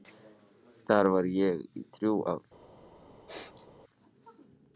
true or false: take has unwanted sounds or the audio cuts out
true